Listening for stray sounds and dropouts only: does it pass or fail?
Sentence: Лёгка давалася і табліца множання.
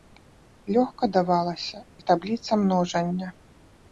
pass